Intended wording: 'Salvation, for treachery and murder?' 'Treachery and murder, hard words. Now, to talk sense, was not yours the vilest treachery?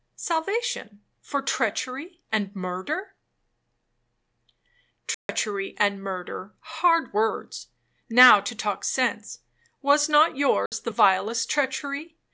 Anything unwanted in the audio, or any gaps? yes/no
yes